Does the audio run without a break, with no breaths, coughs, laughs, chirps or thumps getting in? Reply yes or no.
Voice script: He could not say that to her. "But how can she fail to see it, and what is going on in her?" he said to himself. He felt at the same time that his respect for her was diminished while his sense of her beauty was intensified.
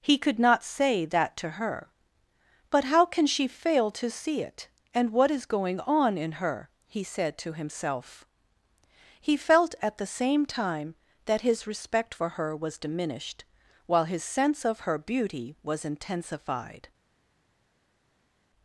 yes